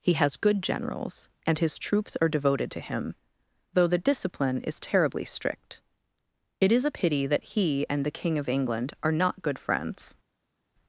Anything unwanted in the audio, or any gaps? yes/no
no